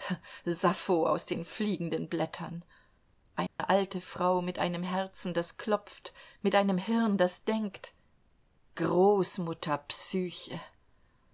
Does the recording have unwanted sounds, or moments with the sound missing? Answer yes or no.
yes